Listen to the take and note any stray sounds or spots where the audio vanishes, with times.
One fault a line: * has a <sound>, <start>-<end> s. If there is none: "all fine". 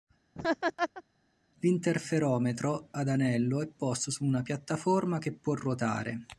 * has a laugh, 0.3-1.0 s